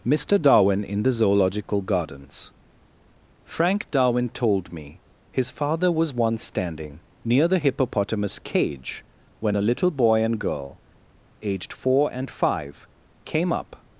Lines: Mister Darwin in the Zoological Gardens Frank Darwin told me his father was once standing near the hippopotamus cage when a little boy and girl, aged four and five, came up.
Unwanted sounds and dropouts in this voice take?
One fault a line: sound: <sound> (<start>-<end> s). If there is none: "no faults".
no faults